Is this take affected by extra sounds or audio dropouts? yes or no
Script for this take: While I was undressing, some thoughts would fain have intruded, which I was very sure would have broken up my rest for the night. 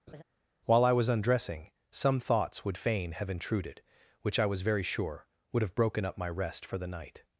yes